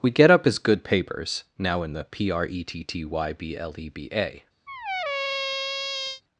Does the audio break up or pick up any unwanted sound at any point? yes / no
yes